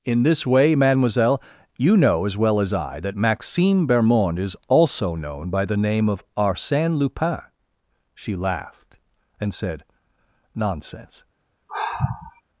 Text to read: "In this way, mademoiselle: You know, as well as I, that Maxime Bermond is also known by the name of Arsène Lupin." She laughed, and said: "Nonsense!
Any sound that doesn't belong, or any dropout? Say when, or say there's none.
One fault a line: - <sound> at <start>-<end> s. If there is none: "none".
- sigh at 11.7-12.4 s